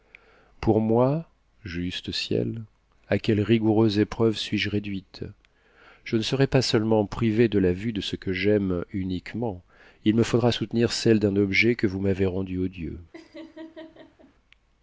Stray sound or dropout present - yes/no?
yes